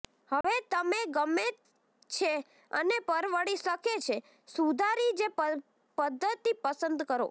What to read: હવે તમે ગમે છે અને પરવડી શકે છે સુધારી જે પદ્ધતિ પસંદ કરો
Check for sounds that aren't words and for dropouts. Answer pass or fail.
fail